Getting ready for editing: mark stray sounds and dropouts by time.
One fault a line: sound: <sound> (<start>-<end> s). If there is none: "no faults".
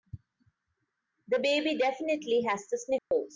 sound: dropout (3.0-3.1 s)